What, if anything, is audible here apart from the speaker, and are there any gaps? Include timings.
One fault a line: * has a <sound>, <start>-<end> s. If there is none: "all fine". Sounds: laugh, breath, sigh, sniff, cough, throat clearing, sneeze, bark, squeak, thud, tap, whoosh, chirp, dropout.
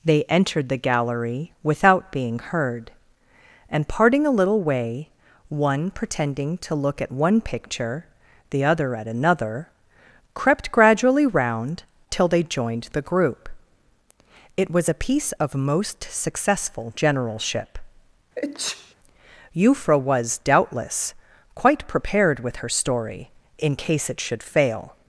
* has a sneeze, 18.4-18.9 s